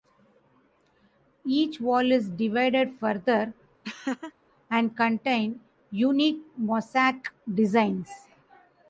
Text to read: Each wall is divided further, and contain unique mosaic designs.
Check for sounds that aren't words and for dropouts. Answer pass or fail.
fail